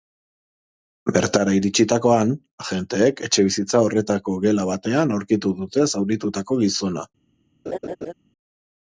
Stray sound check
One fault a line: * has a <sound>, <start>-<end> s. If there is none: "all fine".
* has a laugh, 7.7-8.1 s